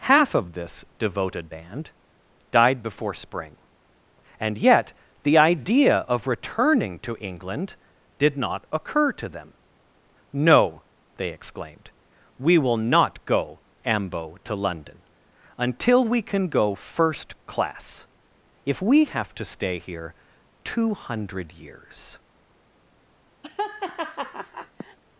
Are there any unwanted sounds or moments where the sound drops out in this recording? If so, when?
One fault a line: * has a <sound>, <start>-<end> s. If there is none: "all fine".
* has a laugh, 23.4-25.0 s